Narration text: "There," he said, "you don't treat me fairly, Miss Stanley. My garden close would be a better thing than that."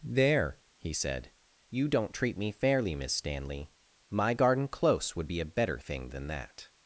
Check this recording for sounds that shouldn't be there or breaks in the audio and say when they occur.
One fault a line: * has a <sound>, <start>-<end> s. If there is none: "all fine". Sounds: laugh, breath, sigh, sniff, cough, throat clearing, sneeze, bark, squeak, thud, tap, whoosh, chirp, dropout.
all fine